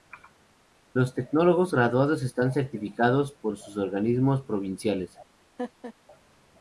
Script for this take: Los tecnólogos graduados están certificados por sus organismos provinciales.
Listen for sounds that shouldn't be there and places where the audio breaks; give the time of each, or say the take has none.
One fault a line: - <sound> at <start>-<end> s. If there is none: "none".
- laugh at 5.6-5.9 s